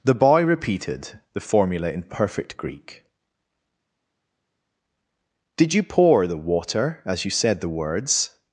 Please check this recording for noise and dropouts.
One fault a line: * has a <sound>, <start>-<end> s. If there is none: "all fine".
all fine